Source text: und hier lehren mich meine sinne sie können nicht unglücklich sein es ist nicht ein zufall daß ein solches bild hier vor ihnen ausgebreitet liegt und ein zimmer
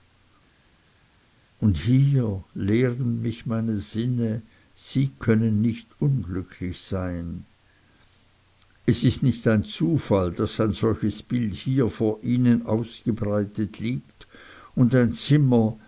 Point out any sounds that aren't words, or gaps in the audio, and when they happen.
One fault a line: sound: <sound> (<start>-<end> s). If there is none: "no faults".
no faults